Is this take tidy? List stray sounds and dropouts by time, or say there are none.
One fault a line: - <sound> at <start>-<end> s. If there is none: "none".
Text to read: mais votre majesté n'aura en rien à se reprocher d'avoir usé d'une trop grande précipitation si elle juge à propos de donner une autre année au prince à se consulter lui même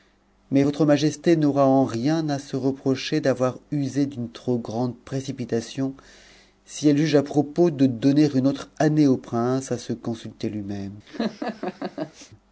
- laugh at 11.1-12.3 s